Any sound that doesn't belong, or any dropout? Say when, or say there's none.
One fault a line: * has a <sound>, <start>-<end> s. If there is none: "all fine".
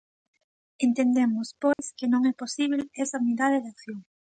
* has a dropout, 1.7-1.8 s